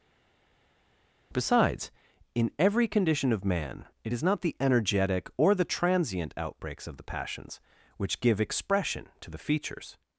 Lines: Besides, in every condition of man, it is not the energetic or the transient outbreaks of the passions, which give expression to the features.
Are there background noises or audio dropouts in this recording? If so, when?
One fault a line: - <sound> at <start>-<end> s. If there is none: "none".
none